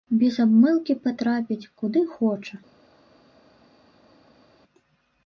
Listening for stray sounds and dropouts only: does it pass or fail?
pass